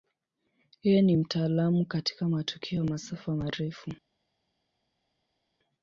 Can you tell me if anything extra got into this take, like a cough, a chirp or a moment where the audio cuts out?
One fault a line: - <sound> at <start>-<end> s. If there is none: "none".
none